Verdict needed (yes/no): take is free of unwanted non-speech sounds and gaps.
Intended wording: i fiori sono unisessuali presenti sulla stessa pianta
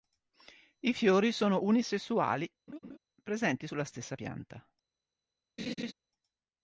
no